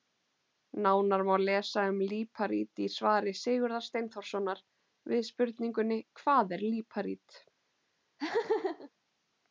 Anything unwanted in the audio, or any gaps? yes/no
yes